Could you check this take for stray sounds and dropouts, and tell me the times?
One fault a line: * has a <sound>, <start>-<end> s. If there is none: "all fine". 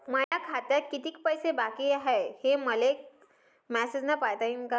* has a dropout, 0.2-0.3 s